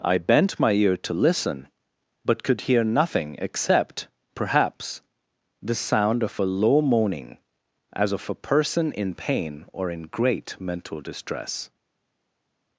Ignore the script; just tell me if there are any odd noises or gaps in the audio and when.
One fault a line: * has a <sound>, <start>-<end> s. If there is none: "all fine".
all fine